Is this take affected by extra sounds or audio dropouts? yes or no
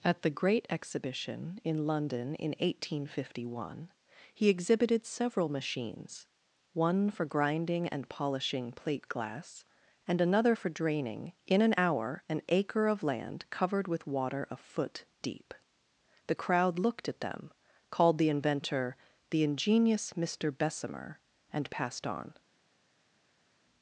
no